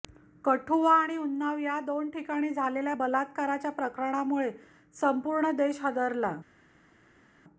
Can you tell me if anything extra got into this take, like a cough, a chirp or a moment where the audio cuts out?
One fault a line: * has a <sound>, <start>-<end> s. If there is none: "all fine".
all fine